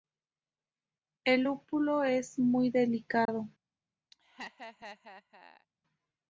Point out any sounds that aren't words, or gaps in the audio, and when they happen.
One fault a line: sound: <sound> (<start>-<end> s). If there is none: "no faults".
sound: dropout (3.3-3.3 s)
sound: laugh (4.1-5.7 s)